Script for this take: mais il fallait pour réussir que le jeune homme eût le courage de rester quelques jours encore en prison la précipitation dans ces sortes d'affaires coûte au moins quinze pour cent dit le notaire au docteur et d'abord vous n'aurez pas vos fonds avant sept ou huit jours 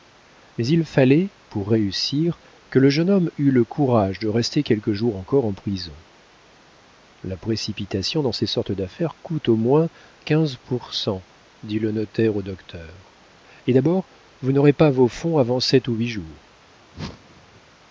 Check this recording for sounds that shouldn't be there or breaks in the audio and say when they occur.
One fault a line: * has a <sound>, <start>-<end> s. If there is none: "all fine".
* has a whoosh, 16.9-17.6 s